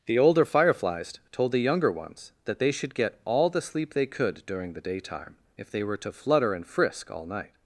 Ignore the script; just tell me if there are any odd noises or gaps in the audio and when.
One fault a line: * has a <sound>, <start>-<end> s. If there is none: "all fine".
all fine